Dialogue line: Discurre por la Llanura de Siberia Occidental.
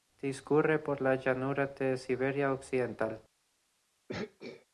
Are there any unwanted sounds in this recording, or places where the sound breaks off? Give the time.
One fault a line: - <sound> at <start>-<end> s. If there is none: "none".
- throat clearing at 4.1-4.7 s